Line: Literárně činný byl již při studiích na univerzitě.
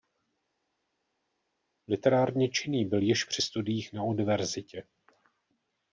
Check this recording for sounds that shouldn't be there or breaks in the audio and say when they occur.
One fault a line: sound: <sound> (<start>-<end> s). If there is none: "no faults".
no faults